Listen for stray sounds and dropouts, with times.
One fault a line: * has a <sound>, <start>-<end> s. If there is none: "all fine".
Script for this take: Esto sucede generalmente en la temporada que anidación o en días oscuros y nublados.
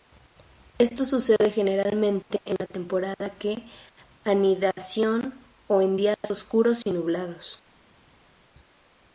all fine